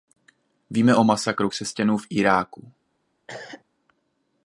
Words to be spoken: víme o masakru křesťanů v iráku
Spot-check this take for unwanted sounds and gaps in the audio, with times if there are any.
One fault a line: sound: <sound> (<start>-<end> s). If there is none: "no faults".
sound: cough (3.3-3.6 s)